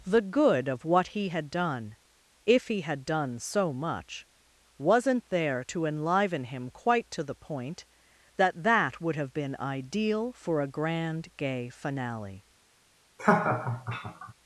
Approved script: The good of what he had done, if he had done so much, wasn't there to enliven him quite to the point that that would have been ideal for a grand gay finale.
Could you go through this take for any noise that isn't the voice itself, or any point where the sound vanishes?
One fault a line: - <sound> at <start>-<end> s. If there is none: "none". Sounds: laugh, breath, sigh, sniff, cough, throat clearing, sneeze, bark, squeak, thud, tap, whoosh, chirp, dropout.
- laugh at 13.2-14.3 s